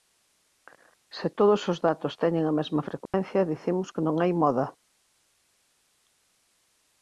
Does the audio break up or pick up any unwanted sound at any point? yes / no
yes